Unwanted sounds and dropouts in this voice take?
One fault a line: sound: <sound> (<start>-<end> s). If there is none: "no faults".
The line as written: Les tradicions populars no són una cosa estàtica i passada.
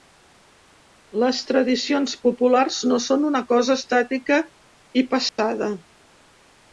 sound: dropout (5.3-5.4 s)